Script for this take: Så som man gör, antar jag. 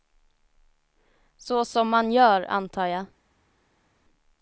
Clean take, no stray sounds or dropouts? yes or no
yes